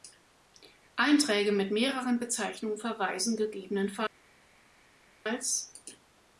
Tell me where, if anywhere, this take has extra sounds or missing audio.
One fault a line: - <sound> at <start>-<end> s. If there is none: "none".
none